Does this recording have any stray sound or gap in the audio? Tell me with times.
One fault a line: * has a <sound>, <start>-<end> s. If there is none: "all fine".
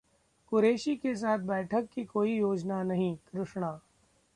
all fine